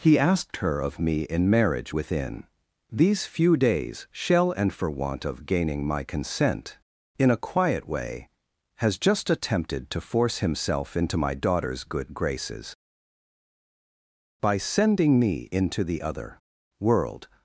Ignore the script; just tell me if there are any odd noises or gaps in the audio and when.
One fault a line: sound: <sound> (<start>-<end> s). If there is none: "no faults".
no faults